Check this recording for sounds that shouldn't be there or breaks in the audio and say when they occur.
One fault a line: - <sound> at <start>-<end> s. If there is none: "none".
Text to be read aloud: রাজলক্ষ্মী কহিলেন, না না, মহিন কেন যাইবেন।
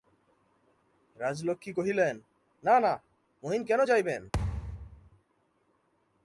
- thud at 4.3-5.1 s